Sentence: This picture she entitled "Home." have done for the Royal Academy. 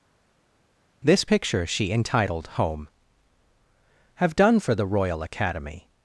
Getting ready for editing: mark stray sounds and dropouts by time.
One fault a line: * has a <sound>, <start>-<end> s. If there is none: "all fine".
all fine